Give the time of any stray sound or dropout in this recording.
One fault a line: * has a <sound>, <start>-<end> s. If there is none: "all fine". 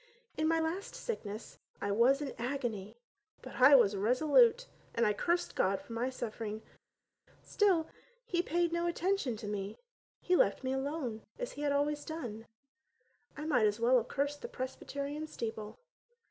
all fine